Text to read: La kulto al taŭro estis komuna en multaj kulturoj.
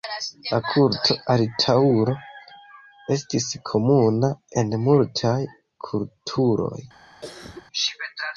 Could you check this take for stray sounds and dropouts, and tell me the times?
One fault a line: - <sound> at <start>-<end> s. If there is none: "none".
- cough at 7.2-7.7 s